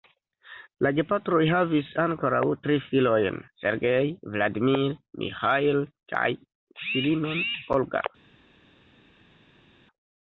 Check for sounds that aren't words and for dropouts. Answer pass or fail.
pass